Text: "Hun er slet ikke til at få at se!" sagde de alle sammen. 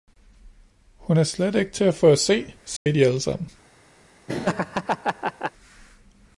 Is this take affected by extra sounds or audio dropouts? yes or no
yes